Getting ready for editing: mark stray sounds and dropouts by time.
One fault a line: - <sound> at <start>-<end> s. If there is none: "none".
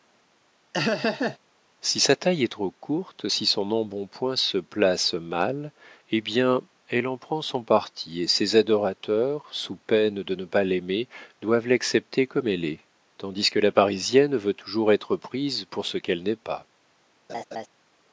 - laugh at 0.7-1.4 s
- laugh at 17.3-17.7 s